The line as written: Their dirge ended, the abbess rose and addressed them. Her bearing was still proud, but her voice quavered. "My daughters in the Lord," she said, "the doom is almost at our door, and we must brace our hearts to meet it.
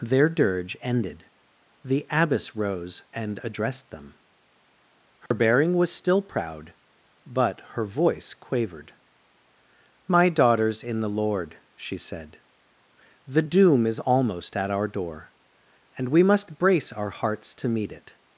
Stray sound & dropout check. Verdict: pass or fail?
fail